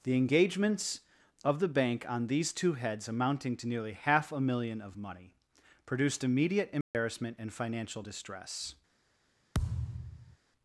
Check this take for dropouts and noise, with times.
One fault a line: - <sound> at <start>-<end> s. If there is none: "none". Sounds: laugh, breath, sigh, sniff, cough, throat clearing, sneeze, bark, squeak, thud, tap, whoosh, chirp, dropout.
- dropout at 6.8-6.9 s
- thud at 9.5-10.4 s